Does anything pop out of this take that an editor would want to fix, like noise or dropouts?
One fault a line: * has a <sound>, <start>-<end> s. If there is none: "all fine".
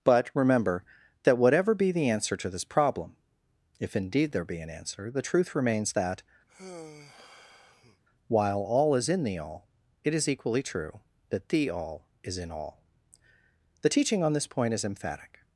* has a sigh, 6.5-8.0 s